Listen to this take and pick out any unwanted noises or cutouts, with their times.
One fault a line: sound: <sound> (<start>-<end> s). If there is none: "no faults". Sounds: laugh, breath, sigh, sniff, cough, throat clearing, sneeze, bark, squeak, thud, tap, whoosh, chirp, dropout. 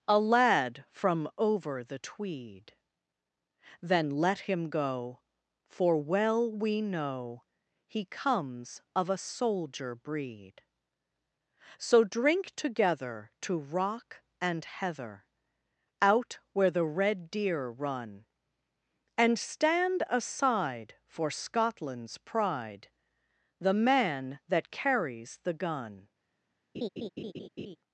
sound: laugh (26.7-27.8 s)